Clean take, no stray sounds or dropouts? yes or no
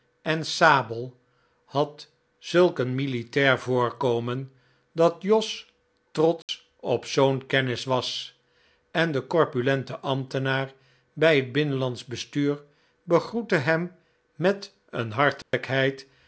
no